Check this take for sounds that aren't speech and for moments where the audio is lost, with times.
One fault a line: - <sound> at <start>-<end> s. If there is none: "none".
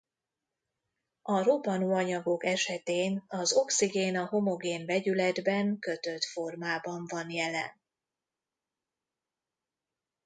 none